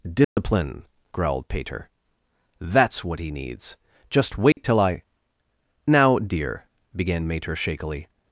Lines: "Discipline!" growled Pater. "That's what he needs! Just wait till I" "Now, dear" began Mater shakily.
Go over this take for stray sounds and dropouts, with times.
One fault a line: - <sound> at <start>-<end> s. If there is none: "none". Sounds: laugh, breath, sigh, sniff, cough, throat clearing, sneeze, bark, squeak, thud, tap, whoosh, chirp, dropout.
- dropout at 0.2-0.4 s
- dropout at 4.5-4.6 s